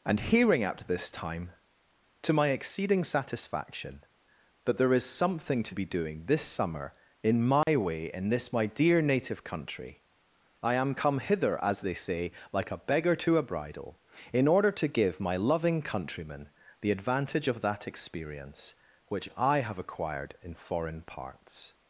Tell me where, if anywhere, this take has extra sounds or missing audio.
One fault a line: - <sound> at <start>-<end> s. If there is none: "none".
- dropout at 7.6-7.7 s